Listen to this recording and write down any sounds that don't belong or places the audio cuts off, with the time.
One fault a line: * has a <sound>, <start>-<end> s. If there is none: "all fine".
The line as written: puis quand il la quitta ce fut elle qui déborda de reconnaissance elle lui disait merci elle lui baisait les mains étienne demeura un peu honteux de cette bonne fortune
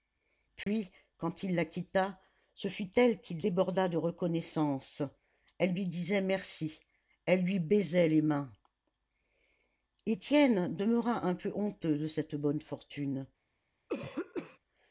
* has a dropout, 0.6-0.7 s
* has a throat clearing, 13.9-14.6 s